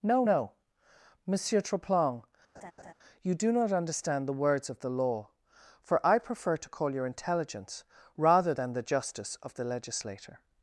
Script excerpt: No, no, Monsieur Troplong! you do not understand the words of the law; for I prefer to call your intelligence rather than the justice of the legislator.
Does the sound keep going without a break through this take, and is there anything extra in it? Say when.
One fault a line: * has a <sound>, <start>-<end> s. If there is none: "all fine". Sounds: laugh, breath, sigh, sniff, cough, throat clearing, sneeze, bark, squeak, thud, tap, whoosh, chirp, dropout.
* has a laugh, 2.5-2.9 s